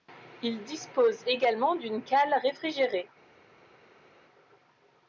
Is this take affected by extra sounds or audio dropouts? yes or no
no